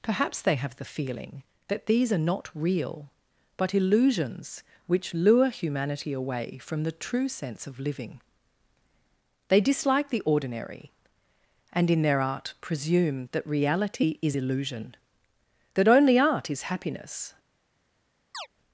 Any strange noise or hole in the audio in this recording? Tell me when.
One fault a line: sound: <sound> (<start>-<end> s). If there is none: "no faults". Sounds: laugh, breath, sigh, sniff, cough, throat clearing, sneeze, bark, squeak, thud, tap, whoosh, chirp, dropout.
sound: chirp (18.3-18.5 s)